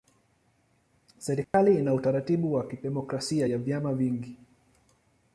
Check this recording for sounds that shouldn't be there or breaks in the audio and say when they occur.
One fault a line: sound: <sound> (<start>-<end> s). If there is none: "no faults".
sound: dropout (1.4-1.5 s)